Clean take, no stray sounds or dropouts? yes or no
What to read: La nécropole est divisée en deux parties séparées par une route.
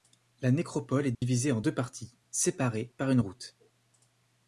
no